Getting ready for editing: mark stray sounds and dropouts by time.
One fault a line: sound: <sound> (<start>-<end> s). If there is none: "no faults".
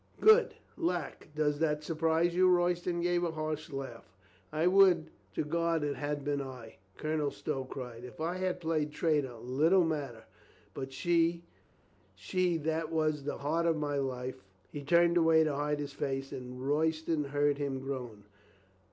no faults